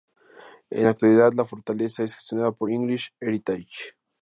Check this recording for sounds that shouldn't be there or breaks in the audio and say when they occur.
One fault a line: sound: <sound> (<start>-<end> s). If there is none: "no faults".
no faults